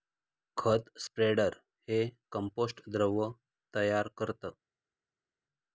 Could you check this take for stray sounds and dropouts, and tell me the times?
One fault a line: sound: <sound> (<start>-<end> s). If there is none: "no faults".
no faults